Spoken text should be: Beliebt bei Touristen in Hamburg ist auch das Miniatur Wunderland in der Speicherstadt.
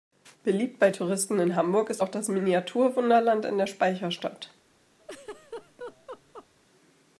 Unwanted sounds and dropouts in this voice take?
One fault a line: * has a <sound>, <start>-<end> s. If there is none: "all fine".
* has a laugh, 5.0-6.5 s